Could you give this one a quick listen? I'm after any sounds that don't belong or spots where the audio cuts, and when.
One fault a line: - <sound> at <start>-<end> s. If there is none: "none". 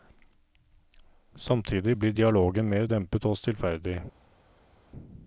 none